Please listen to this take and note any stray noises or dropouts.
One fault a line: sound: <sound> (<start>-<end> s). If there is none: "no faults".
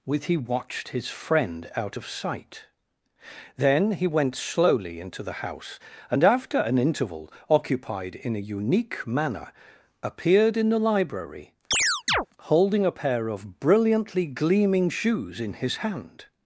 sound: chirp (11.7-12.3 s)